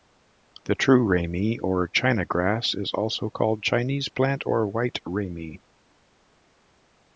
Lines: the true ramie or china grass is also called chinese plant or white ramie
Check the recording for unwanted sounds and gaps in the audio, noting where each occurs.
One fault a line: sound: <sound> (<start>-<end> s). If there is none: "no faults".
no faults